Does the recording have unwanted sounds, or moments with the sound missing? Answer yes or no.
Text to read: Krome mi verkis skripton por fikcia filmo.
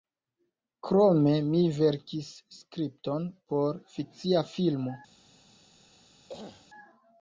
yes